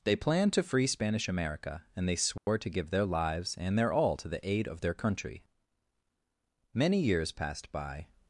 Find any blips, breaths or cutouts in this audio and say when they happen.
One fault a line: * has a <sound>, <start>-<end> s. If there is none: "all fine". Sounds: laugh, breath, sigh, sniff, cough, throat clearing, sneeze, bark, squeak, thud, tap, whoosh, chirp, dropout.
* has a dropout, 2.4-2.5 s